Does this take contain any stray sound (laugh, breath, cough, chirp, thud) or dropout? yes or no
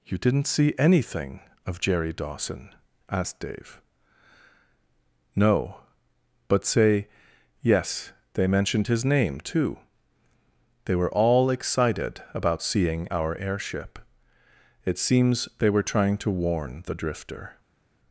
no